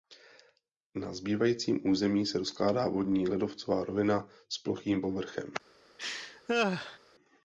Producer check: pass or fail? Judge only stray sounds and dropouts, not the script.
fail